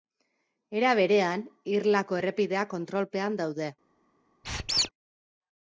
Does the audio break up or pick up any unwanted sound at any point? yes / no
yes